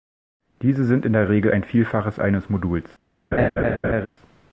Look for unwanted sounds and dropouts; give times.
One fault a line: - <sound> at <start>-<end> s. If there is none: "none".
- laugh at 3.3-4.1 s